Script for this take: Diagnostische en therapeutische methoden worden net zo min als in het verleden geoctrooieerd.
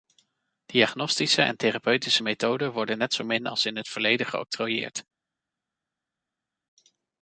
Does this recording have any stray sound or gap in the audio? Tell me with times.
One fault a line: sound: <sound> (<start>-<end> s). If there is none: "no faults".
no faults